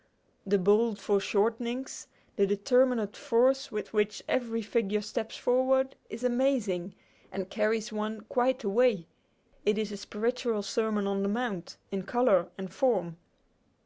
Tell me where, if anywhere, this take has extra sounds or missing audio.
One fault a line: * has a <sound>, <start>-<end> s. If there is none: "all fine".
all fine